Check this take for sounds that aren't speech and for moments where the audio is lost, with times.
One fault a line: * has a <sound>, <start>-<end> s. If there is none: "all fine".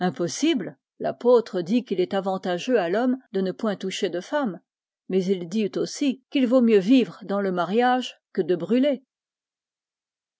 all fine